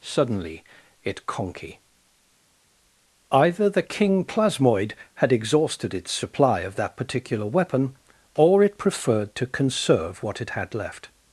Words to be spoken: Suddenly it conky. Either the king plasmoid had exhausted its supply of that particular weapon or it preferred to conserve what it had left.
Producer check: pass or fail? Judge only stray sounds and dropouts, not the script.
pass